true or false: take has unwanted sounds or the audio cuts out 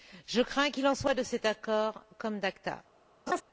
true